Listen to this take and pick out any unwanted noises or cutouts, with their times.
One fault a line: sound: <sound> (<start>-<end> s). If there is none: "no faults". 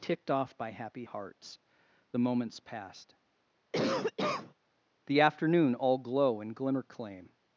sound: cough (3.7-4.5 s)